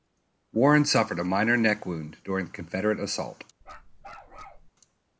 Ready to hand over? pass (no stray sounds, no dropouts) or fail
fail